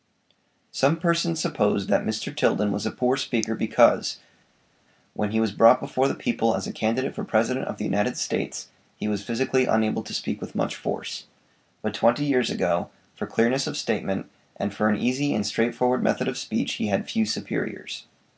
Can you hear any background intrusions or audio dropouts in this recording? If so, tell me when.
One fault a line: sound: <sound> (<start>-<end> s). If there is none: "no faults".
no faults